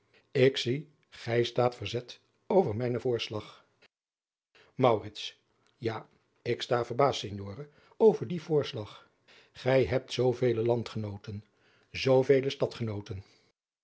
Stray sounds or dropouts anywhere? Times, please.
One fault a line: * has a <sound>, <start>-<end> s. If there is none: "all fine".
all fine